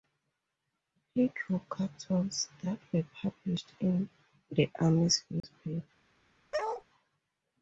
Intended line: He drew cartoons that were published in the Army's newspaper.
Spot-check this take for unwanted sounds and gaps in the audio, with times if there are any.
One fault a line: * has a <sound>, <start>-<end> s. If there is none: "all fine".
* has a dropout, 5.4-5.4 s
* has a bark, 6.5-6.8 s